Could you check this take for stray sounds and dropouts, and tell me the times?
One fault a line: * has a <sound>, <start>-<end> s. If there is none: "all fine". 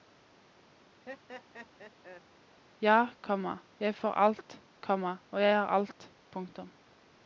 * has a laugh, 1.1-2.2 s